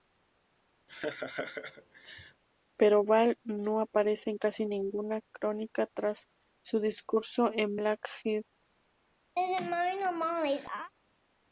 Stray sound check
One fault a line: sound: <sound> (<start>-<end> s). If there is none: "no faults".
sound: laugh (0.9-2.4 s)
sound: laugh (9.4-10.9 s)